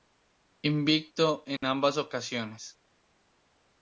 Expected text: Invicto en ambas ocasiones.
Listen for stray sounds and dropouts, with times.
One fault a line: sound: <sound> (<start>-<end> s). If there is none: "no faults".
sound: dropout (1.6-1.6 s)